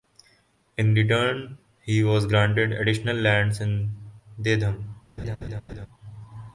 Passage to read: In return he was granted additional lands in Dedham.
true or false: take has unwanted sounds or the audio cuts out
true